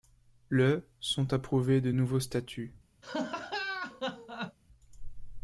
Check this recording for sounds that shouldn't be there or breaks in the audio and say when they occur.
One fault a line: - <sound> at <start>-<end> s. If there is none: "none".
- laugh at 3.0-4.6 s